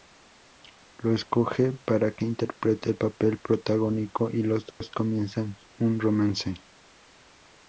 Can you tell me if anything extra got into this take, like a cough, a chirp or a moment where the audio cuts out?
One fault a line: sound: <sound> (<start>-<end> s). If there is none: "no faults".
sound: dropout (4.7-4.8 s)